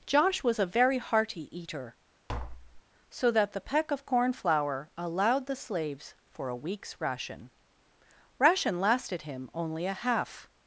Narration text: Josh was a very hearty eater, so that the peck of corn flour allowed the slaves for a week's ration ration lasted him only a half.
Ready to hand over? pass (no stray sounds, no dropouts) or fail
fail